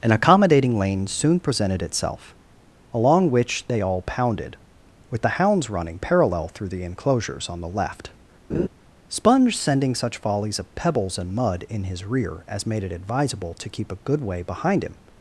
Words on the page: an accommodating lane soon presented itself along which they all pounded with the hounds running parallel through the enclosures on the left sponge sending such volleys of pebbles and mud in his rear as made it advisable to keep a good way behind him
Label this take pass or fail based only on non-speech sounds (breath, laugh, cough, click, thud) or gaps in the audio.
fail